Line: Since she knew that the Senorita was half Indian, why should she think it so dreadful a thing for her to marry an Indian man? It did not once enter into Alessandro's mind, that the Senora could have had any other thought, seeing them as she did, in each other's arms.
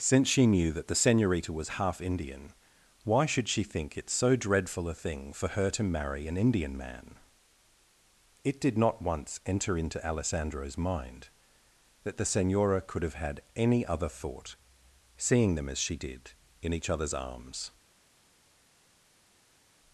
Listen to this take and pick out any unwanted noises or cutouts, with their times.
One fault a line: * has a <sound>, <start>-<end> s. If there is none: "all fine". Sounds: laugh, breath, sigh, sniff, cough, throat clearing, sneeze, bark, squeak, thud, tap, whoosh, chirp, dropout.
all fine